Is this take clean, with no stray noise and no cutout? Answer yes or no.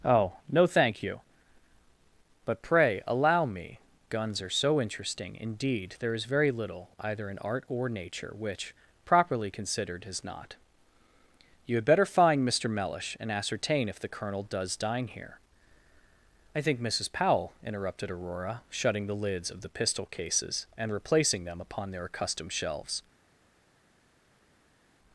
yes